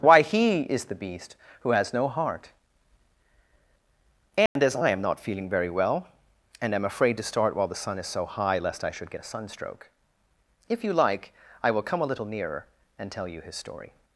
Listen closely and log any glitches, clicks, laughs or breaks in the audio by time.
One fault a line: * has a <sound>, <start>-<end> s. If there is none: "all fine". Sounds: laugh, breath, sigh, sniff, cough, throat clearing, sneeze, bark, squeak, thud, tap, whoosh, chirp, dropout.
* has a dropout, 4.5-4.6 s